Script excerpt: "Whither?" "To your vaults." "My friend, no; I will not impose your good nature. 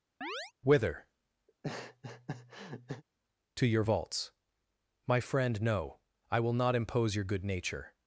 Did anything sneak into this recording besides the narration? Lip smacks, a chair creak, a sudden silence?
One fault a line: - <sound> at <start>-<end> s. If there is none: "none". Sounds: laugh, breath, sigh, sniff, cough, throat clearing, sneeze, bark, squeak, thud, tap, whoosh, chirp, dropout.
- chirp at 0.2-0.5 s
- laugh at 1.5-3.0 s